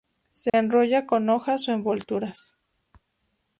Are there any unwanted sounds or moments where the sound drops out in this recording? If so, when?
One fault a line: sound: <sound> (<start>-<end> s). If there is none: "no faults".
sound: dropout (0.5-0.5 s)